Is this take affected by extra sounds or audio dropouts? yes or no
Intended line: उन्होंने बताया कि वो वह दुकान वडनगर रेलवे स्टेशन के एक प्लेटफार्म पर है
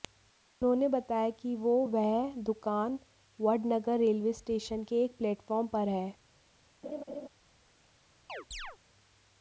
yes